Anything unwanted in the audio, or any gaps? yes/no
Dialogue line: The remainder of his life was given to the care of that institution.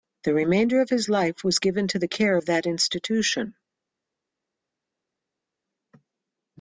no